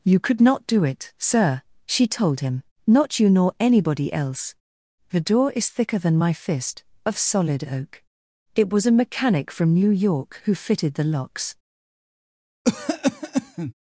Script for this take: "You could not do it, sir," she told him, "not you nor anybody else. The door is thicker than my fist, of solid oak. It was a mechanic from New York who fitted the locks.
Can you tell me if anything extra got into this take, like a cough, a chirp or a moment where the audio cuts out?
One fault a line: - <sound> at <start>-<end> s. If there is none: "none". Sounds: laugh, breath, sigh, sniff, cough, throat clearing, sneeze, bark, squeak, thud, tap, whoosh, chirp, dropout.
- cough at 12.6-13.7 s